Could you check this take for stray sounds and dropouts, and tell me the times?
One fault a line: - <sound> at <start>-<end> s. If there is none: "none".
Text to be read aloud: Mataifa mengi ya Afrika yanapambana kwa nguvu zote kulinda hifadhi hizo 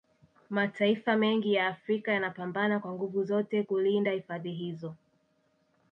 none